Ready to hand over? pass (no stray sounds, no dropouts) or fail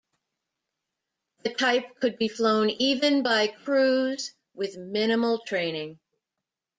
pass